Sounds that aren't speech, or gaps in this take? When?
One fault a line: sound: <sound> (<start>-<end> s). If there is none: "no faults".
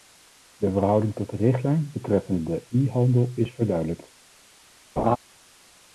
sound: laugh (5.0-5.2 s)